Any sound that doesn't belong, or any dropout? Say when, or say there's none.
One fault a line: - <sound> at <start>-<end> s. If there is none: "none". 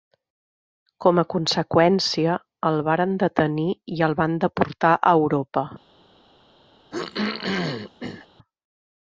- throat clearing at 6.9-8.3 s